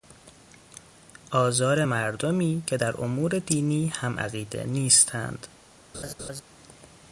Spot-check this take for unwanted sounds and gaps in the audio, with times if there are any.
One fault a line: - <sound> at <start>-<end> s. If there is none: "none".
- laugh at 5.9-6.4 s